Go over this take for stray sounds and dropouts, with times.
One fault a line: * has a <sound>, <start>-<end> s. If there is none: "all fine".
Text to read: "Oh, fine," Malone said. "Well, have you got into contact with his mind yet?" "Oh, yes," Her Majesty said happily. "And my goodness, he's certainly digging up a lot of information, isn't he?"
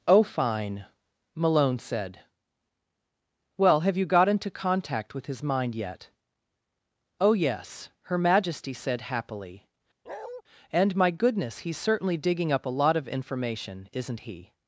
* has a bark, 10.1-10.4 s